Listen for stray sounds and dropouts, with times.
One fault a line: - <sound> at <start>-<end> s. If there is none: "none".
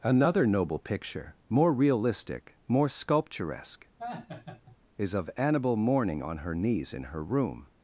- laugh at 4.0-4.8 s